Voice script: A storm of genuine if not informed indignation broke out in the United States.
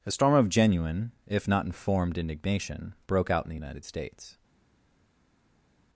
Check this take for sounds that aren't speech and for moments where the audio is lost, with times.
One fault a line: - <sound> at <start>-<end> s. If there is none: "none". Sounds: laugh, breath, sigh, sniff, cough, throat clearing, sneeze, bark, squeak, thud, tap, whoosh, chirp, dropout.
none